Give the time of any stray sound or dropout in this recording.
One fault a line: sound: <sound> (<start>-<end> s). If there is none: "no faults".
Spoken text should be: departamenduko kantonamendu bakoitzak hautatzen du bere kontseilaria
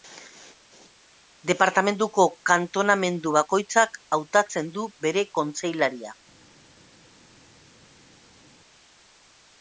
no faults